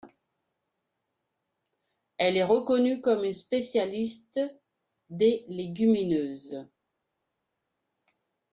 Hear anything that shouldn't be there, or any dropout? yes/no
no